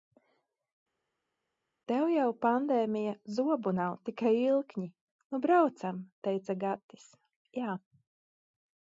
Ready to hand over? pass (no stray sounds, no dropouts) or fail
pass